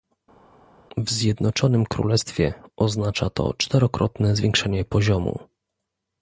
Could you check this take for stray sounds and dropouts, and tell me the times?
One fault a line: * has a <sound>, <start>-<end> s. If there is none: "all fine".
all fine